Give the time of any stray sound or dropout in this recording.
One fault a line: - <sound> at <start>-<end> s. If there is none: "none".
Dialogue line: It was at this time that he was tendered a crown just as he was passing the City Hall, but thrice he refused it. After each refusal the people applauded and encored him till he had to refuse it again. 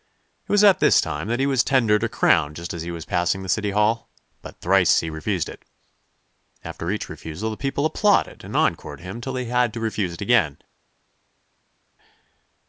none